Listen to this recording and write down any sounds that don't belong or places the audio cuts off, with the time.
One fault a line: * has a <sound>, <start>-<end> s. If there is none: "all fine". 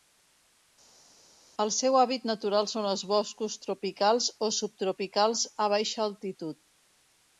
all fine